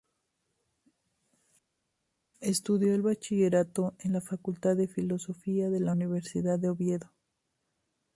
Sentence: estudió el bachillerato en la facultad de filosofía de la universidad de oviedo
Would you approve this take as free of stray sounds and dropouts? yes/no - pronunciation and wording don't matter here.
yes